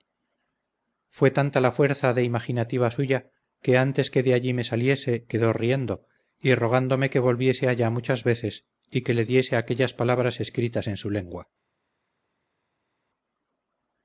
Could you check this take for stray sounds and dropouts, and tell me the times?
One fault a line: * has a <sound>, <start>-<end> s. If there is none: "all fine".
all fine